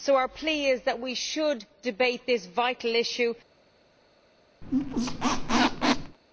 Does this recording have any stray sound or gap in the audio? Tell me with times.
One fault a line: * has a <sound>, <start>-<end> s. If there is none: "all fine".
* has a squeak, 4.6-6.2 s